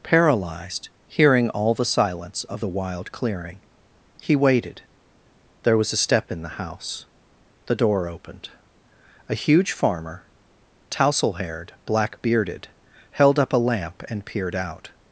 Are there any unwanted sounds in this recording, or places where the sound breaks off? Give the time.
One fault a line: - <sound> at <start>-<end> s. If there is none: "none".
none